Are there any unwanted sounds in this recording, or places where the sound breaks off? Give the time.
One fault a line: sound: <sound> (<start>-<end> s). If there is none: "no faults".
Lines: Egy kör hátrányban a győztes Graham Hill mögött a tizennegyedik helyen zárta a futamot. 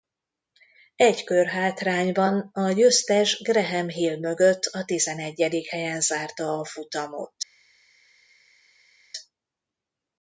no faults